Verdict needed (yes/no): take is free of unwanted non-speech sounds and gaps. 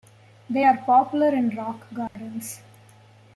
no